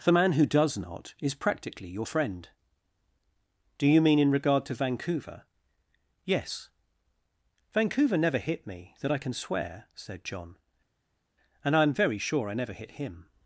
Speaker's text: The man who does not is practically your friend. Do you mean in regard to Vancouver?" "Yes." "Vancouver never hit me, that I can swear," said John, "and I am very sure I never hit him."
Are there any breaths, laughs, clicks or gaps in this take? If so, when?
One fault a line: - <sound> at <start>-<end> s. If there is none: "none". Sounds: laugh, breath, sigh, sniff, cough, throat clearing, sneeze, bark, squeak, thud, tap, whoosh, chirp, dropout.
none